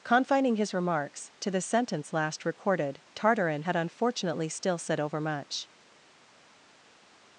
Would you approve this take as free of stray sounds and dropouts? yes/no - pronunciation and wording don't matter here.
yes